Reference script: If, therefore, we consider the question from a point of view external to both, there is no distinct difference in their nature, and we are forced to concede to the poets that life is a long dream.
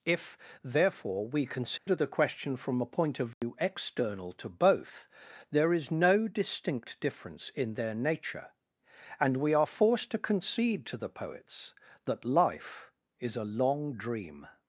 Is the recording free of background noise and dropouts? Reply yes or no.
no